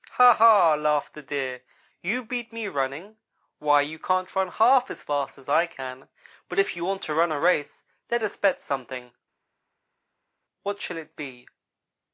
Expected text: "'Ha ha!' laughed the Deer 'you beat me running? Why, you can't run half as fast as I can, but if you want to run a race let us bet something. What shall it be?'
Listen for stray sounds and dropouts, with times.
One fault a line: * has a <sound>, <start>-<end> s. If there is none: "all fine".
all fine